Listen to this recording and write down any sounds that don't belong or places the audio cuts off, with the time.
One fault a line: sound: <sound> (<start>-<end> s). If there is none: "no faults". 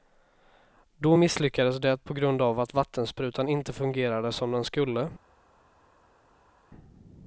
no faults